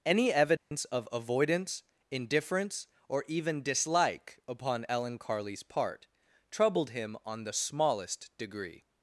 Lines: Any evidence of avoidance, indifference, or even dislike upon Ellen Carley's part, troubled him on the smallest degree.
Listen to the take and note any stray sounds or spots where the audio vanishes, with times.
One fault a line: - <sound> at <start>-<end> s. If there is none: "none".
- dropout at 0.6-0.7 s